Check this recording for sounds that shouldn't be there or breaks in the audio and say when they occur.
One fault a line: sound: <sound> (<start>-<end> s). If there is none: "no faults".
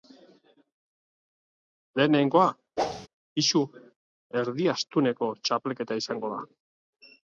sound: whoosh (2.8-3.1 s)